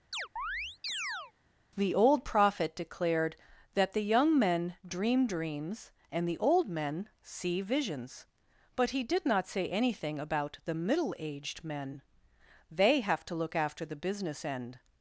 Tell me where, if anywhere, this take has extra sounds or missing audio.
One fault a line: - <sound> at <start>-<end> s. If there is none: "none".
- chirp at 0.1-1.3 s